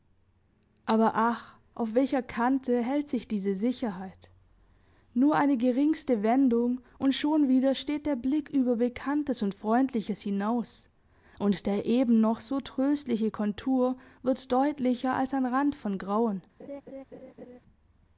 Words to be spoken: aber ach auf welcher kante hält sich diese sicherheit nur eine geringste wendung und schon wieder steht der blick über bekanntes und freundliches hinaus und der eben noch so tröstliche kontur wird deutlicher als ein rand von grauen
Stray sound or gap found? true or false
true